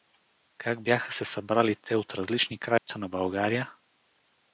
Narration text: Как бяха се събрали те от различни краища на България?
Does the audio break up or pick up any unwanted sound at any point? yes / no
yes